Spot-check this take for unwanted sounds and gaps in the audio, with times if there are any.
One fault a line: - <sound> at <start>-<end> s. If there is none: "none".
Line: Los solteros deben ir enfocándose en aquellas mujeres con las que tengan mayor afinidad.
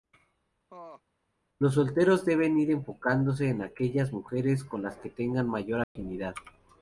- laugh at 0.7-1.0 s
- dropout at 5.8-6.0 s